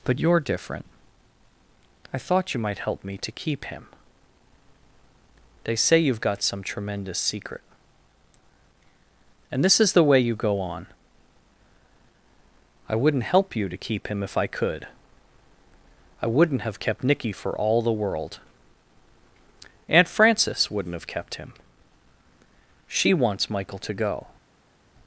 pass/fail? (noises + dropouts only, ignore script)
pass